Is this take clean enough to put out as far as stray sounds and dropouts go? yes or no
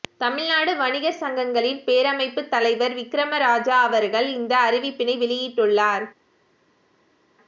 yes